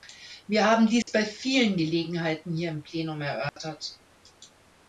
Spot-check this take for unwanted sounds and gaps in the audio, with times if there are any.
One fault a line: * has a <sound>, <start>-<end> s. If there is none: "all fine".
* has a dropout, 1.0-1.1 s
* has a dropout, 3.5-3.6 s